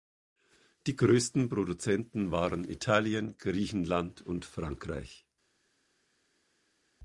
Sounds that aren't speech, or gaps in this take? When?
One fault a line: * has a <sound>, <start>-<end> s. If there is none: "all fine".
all fine